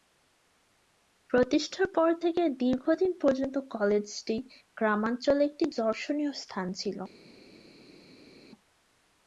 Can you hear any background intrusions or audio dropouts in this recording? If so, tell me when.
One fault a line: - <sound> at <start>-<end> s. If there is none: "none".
none